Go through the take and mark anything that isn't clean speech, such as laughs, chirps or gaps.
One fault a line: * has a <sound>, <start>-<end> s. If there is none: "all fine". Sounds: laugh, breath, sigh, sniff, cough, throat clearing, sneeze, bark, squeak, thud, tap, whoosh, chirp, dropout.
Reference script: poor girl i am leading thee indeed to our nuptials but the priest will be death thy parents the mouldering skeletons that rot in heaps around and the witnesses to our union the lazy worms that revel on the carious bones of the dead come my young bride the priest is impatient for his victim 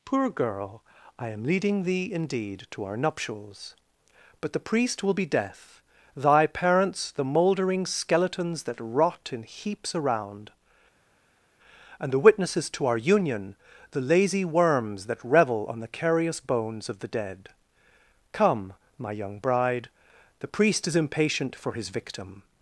all fine